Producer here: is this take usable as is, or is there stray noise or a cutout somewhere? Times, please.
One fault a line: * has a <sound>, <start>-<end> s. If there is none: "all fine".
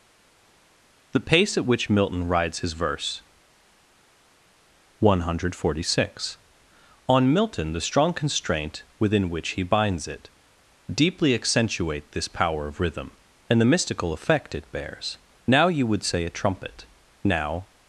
all fine